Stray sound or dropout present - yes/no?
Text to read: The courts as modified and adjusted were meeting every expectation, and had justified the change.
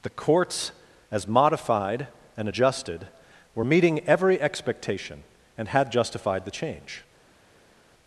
no